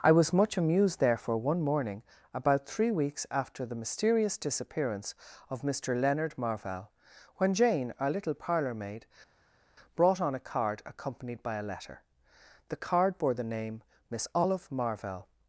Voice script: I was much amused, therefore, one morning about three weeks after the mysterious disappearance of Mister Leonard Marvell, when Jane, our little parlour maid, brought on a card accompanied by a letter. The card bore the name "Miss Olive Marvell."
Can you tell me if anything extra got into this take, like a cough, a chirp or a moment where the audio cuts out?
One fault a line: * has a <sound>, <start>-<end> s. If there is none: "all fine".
all fine